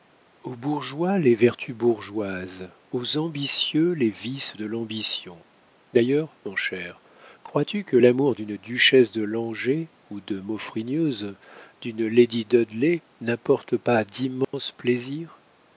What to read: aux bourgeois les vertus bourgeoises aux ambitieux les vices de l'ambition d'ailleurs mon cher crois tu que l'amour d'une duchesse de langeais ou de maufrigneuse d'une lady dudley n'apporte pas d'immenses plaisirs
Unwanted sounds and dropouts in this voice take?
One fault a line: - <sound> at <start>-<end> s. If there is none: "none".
- dropout at 14.4-14.5 s